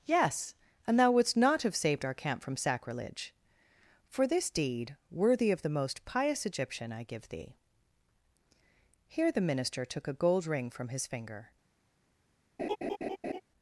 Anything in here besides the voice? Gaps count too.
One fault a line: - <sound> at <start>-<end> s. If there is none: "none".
- laugh at 12.6-13.4 s